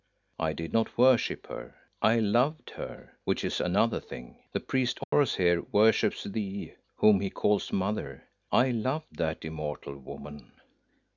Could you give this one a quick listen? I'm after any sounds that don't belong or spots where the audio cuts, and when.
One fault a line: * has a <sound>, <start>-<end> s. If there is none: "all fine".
* has a dropout, 5.0-5.1 s